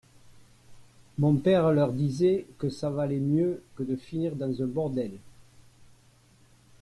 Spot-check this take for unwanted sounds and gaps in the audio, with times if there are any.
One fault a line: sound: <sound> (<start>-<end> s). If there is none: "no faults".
no faults